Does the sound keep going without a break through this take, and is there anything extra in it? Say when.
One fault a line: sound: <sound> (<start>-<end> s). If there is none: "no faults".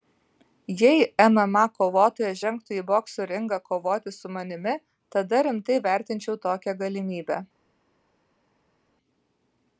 no faults